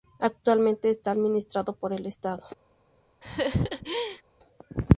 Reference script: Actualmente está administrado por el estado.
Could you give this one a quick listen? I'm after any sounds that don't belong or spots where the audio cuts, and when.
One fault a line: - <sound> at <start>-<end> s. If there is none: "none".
- laugh at 3.2-4.2 s